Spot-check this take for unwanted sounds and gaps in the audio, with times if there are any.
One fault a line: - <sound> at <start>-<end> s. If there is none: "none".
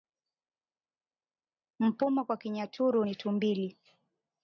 none